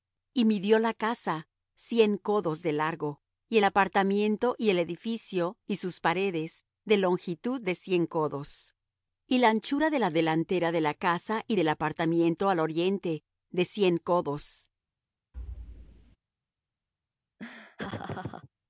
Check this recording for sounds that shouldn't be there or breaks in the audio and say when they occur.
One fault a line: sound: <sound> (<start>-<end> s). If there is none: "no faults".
sound: thud (15.3-16.2 s)
sound: laugh (17.4-18.5 s)